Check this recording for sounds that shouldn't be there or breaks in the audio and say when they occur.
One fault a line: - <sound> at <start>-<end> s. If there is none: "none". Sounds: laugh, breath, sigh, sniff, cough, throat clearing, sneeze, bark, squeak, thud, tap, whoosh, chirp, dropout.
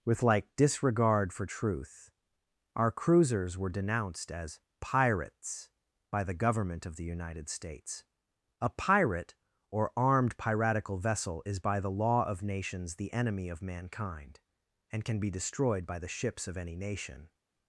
none